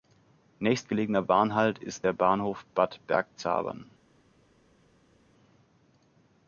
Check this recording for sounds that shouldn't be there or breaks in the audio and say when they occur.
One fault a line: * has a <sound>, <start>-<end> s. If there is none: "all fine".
all fine